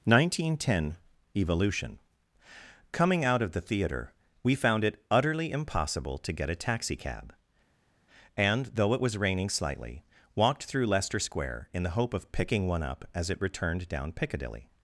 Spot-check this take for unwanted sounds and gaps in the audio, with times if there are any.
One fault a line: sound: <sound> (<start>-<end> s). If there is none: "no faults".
no faults